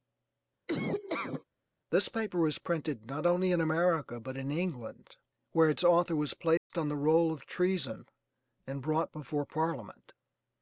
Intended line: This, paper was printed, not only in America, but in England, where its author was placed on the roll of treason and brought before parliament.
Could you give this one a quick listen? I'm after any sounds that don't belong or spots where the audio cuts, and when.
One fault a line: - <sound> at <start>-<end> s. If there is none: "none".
- laugh at 0.7-1.4 s
- dropout at 6.6-6.7 s